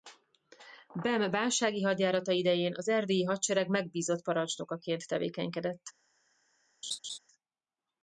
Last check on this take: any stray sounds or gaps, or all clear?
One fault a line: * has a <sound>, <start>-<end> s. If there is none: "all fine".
* has a laugh, 6.8-7.2 s